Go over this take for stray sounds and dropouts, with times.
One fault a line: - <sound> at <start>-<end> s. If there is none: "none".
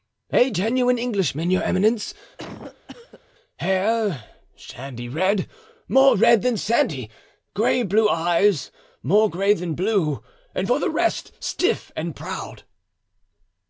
- cough at 2.4-3.2 s